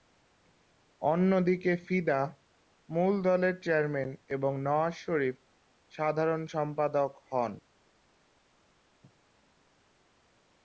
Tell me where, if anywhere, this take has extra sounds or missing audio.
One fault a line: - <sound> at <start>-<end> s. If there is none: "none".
none